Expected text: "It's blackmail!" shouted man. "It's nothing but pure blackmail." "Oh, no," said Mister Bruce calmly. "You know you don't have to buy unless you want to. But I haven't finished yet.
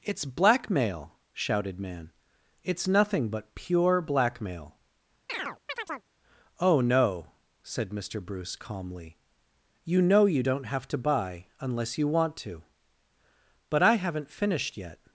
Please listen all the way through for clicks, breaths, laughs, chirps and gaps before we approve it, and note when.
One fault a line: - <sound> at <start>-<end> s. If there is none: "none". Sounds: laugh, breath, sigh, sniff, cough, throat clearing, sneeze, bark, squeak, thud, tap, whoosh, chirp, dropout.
- chirp at 5.3-6.1 s